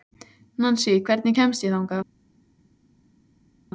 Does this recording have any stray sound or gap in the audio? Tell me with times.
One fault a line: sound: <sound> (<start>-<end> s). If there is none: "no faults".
no faults